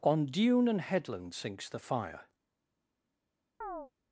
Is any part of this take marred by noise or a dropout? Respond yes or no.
yes